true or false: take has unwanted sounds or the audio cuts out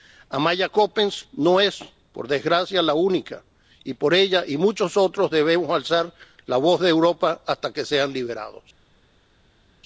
false